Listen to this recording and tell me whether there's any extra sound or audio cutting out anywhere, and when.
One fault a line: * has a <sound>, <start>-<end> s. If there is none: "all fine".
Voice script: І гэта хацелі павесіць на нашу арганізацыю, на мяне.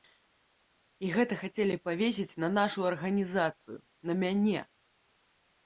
all fine